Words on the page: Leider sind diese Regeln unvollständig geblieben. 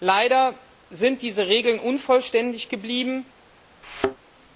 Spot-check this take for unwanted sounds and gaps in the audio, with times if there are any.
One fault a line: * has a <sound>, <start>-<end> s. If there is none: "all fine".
* has a thud, 3.8-4.2 s